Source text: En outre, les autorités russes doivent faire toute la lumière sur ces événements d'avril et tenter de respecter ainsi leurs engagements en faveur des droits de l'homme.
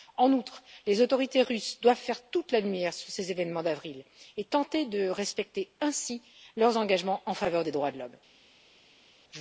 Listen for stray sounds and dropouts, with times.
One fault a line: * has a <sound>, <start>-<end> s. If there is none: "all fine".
all fine